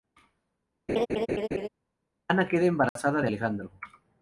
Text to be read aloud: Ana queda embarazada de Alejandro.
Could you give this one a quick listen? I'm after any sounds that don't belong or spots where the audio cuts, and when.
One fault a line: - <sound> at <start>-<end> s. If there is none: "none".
- laugh at 0.9-1.7 s
- dropout at 2.9-3.0 s